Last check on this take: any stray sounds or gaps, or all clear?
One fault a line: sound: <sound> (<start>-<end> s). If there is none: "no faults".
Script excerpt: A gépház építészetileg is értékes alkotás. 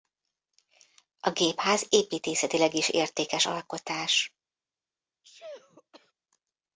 sound: sneeze (5.2-6.1 s)